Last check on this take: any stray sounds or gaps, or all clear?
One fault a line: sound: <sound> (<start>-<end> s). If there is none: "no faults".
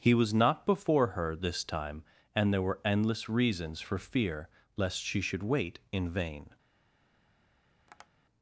sound: tap (7.9-8.1 s)